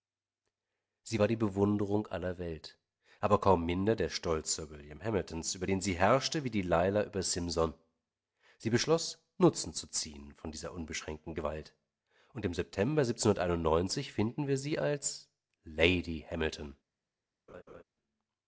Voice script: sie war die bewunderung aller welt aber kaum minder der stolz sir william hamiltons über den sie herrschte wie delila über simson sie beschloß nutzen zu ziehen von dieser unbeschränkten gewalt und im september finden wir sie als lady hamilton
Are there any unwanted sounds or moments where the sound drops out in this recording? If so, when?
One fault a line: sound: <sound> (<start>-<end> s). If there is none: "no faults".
sound: laugh (17.5-17.8 s)